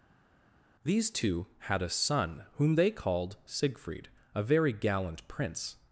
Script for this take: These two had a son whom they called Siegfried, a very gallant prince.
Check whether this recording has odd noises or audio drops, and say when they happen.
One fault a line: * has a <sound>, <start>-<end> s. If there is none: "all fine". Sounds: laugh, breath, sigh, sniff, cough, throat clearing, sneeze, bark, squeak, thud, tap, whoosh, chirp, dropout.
all fine